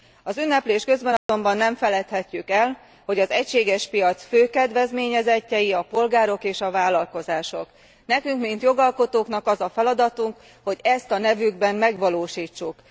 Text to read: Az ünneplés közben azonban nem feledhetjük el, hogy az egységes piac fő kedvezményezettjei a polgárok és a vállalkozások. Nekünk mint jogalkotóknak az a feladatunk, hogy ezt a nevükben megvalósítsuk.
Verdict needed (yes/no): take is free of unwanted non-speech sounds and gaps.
no